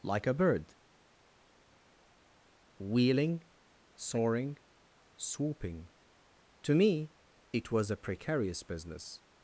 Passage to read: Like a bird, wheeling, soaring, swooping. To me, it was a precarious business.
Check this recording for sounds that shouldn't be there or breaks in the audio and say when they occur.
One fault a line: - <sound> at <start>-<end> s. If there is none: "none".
none